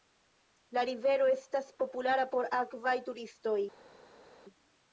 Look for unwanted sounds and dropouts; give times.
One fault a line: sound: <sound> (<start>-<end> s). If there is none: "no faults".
no faults